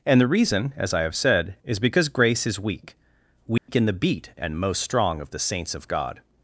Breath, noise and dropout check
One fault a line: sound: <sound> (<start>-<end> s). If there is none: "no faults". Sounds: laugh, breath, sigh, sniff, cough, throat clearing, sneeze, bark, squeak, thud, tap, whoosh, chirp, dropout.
sound: dropout (3.6-3.7 s)